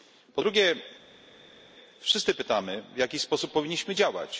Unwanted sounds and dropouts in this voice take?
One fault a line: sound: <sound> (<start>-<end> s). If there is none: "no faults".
no faults